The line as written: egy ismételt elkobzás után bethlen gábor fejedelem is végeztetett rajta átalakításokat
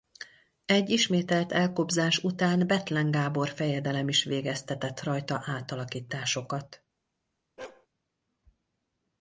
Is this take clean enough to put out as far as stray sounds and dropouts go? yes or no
no